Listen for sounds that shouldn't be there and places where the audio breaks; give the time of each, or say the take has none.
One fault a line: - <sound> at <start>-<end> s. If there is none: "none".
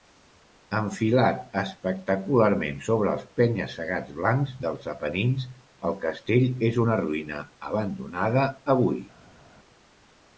none